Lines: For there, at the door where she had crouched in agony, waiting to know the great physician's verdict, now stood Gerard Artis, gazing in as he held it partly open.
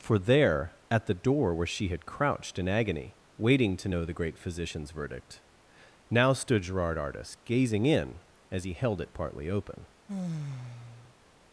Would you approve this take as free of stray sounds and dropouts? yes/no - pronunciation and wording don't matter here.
no